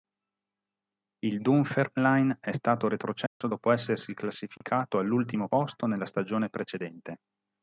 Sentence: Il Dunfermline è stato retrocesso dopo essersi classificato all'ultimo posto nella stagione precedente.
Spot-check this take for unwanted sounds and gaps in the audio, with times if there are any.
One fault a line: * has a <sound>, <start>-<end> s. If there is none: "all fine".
* has a dropout, 3.3-3.4 s
* has a dropout, 4.6-4.6 s